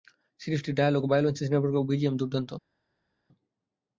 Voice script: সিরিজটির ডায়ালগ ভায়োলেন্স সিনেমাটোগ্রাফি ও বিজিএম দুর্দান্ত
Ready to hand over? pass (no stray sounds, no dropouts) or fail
pass